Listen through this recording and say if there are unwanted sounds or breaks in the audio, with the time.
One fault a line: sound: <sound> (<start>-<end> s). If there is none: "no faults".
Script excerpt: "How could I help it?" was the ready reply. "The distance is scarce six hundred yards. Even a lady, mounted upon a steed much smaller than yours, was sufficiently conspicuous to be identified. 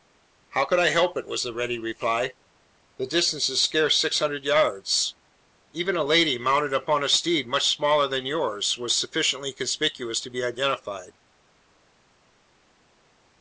no faults